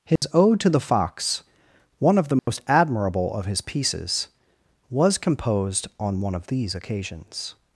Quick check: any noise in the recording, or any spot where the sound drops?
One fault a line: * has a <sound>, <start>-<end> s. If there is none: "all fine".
* has a dropout, 0.2-0.2 s
* has a dropout, 2.4-2.5 s